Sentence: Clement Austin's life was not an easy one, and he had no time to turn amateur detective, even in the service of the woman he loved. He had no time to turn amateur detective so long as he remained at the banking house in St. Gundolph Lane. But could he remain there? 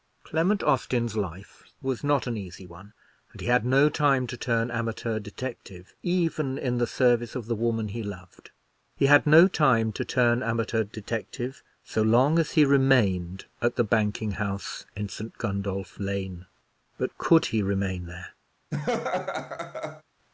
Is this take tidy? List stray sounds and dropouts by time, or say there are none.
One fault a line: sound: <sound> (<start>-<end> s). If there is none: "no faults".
sound: laugh (18.7-20.0 s)